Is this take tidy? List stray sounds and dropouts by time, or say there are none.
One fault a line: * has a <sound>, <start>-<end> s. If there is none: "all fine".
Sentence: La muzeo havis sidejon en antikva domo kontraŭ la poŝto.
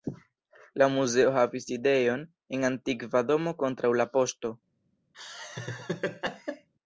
* has a laugh, 5.1-6.7 s